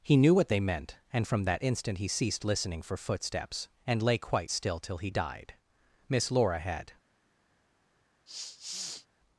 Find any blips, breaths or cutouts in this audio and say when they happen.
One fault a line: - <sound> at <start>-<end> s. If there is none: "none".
- sniff at 8.3-9.1 s